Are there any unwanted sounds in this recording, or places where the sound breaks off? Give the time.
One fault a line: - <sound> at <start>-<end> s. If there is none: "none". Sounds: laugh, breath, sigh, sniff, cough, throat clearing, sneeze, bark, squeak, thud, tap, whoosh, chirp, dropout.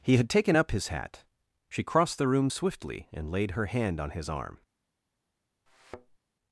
- thud at 5.7-6.2 s